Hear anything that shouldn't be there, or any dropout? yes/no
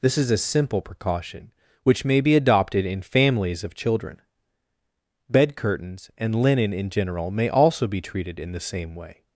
no